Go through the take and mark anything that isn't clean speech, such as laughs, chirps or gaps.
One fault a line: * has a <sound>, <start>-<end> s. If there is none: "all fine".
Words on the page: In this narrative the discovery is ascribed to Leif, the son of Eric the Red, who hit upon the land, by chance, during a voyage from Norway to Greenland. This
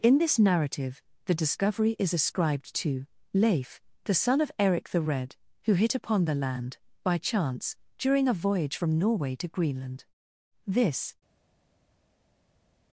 all fine